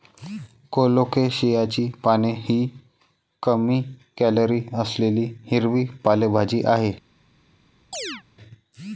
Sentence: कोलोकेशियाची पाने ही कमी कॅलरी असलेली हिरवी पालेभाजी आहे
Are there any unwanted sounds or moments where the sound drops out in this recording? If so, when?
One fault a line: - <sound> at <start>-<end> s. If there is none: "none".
- chirp at 7.9-8.2 s